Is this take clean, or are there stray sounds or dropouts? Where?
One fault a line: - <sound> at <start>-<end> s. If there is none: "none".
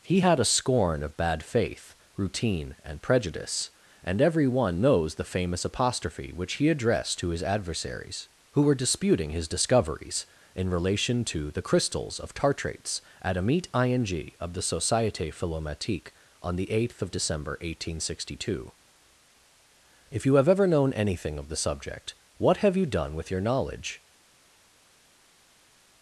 none